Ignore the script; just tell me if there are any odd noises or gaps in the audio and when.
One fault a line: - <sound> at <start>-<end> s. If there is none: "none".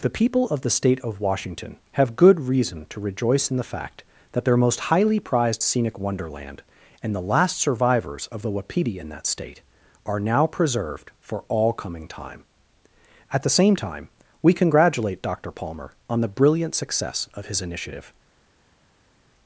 none